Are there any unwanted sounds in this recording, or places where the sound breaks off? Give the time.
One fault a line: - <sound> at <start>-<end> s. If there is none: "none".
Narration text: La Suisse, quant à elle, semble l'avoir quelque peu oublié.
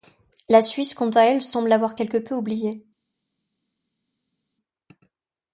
none